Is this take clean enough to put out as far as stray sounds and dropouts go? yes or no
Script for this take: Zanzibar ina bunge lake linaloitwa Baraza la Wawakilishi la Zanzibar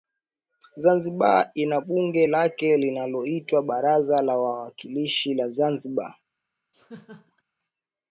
no